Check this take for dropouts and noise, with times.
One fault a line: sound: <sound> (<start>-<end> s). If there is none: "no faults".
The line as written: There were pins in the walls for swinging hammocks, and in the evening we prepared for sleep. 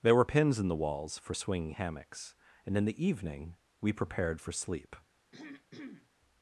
sound: throat clearing (5.3-6.1 s)